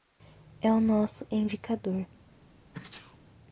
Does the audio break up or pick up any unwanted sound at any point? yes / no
yes